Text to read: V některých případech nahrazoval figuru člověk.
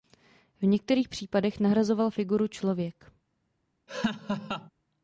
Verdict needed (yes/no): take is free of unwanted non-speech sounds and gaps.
no